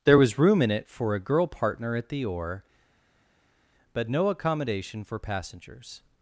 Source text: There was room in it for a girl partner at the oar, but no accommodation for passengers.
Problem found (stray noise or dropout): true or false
false